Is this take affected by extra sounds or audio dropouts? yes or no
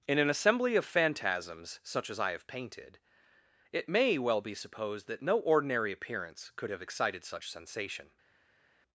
no